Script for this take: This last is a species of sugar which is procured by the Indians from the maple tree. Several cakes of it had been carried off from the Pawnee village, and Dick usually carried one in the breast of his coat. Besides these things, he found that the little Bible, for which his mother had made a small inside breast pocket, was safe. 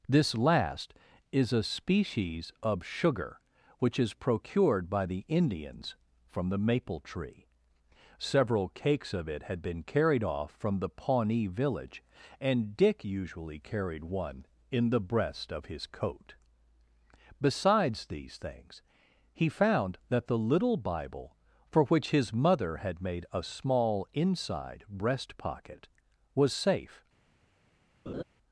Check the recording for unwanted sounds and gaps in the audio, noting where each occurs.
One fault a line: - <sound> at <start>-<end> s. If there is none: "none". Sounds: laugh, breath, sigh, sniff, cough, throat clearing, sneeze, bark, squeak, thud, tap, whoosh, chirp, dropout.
- laugh at 28.1-28.2 s